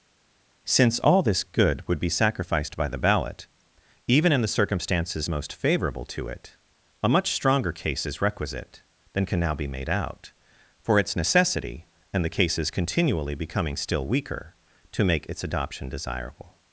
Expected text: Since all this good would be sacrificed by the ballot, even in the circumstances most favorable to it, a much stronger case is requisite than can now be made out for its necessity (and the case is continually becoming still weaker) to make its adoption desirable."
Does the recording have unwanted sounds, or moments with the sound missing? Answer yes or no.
no